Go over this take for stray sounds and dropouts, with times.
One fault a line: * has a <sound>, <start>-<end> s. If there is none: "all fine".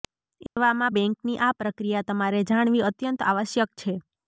* has a dropout, 0.5-0.6 s